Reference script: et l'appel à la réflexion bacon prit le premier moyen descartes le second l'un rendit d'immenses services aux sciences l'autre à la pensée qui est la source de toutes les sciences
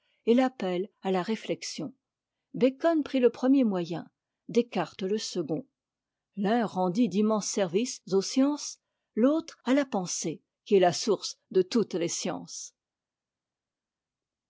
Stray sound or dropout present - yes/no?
no